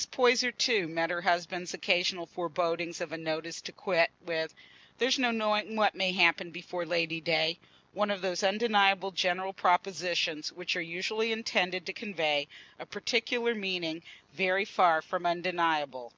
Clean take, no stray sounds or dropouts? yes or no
yes